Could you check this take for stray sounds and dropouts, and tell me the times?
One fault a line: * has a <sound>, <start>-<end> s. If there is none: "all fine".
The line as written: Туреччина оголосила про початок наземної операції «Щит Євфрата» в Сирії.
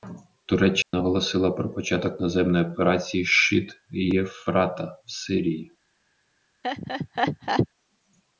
* has a dropout, 0.8-0.9 s
* has a laugh, 6.6-7.7 s